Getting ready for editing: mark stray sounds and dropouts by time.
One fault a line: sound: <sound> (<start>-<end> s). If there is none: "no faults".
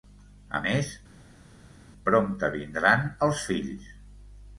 no faults